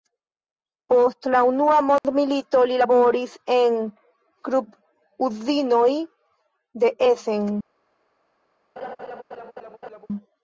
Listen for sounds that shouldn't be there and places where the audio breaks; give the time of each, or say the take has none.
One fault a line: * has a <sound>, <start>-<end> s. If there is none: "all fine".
* has a dropout, 2.0-2.0 s
* has a laugh, 8.8-10.1 s